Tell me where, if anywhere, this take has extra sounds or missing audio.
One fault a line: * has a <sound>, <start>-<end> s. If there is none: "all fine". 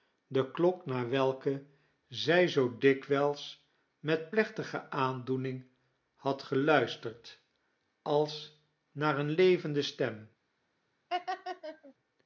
* has a laugh, 11.1-11.9 s